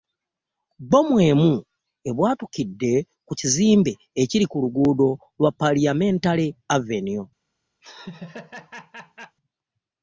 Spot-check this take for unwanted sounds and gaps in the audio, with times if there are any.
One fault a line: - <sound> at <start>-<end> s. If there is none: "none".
- laugh at 7.8-9.4 s